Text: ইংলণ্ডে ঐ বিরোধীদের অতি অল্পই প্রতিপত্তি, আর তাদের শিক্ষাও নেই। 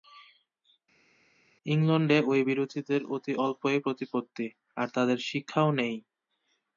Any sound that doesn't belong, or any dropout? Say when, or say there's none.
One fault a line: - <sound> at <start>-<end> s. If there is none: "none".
none